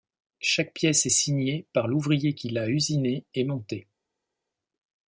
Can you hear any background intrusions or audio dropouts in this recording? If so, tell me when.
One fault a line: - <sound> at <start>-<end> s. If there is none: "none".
none